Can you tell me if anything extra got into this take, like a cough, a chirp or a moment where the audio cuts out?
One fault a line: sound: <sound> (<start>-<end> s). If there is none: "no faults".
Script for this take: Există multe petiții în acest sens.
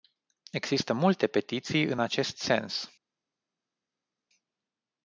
no faults